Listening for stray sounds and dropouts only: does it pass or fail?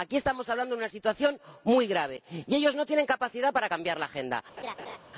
fail